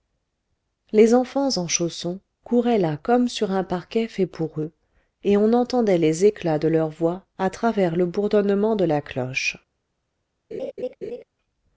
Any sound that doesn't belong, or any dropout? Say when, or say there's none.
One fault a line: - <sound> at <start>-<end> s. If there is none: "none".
- laugh at 10.5-11.2 s